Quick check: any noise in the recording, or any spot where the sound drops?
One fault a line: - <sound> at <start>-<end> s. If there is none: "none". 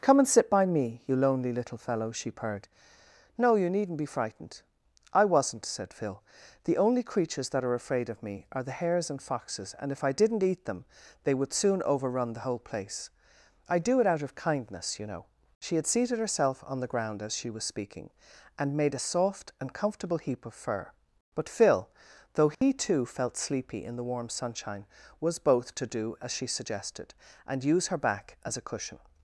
- dropout at 22.5-22.6 s